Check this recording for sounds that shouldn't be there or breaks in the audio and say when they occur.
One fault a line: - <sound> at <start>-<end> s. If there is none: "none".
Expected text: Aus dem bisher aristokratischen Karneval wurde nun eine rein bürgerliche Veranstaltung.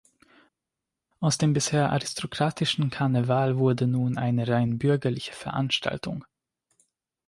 none